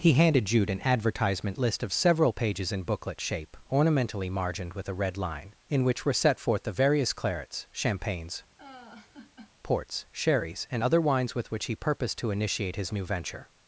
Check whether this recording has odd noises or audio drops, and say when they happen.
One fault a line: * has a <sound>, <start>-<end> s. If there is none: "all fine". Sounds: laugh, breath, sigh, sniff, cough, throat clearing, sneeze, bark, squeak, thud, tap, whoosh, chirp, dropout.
* has a laugh, 8.6-9.5 s